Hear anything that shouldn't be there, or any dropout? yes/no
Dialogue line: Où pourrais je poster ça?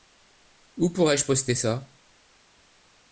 no